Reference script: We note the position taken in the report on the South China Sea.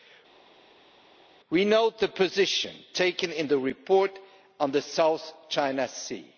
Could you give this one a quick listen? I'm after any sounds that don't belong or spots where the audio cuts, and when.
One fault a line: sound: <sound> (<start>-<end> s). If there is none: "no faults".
no faults